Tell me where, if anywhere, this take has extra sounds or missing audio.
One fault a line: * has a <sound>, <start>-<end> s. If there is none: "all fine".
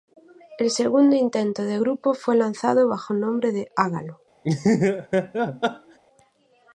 * has a laugh, 4.4-6.0 s